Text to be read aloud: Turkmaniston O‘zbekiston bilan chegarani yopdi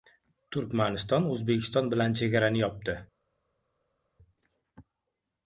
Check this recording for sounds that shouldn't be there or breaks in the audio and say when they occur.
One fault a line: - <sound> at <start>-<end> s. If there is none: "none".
none